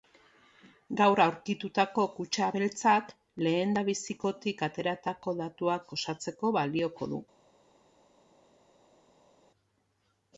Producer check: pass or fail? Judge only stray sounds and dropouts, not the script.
pass